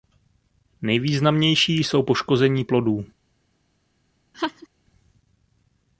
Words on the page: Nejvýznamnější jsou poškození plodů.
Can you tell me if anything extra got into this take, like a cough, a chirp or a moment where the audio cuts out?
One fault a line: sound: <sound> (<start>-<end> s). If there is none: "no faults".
sound: laugh (4.3-4.7 s)